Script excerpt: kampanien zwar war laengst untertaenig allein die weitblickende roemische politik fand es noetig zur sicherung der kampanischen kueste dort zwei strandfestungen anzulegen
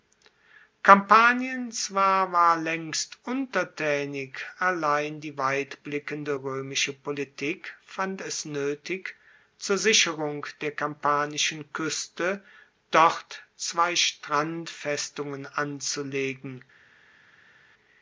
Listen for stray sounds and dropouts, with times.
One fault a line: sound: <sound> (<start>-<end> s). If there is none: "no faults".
no faults